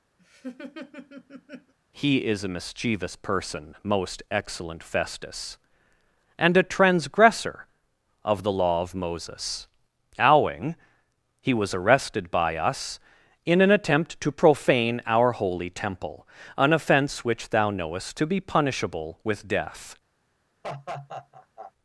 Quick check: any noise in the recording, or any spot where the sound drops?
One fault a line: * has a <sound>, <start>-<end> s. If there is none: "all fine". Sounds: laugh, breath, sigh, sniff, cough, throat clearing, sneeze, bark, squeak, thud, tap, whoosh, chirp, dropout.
* has a laugh, 0.2-1.7 s
* has a laugh, 20.6-21.7 s